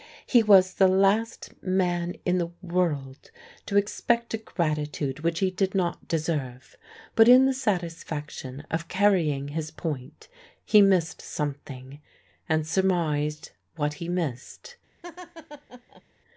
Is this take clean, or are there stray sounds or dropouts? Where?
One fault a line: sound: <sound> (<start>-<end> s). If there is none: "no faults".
sound: laugh (15.0-16.0 s)